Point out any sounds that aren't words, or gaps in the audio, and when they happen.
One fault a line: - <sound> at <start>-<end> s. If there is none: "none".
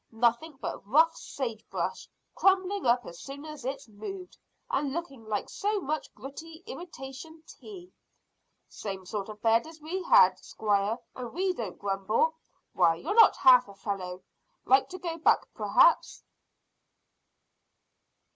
none